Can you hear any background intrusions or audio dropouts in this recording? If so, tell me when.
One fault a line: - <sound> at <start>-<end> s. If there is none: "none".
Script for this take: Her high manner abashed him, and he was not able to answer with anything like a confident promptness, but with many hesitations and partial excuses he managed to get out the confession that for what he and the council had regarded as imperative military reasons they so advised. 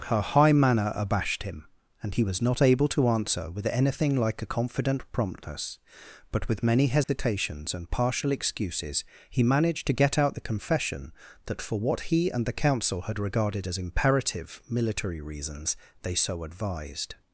- dropout at 7.0-7.1 s